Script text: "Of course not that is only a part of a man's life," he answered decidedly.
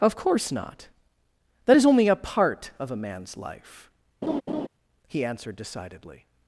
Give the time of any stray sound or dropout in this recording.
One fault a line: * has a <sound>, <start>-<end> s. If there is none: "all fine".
* has a laugh, 4.2-4.7 s